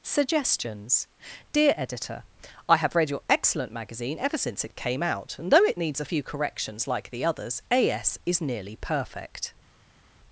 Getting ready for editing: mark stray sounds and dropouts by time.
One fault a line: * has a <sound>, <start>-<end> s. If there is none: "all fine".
all fine